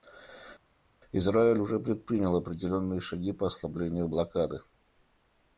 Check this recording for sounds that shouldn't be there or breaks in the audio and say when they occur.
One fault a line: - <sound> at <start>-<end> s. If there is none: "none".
none